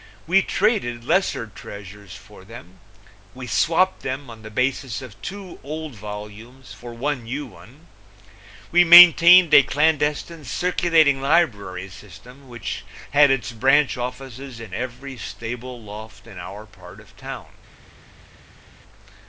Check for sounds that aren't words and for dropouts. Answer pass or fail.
pass